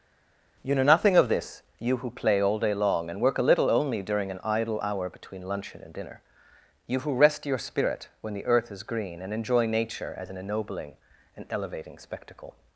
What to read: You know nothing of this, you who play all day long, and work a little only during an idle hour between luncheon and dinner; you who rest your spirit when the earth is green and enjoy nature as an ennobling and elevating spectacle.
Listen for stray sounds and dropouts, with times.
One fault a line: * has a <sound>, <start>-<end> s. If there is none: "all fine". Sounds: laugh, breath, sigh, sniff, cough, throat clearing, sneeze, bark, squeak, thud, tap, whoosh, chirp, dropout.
all fine